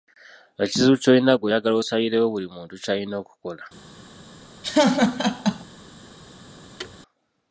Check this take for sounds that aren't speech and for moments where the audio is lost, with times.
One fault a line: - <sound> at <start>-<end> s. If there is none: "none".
- laugh at 4.6-5.6 s
- thud at 6.8-7.0 s